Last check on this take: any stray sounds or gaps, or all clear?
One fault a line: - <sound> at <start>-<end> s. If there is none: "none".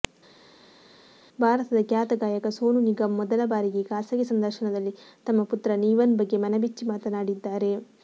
none